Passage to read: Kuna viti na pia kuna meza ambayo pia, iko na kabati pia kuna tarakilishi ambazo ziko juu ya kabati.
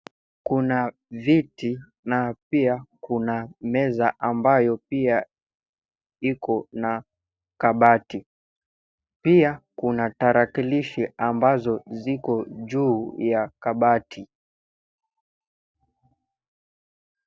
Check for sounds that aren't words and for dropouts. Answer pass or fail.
pass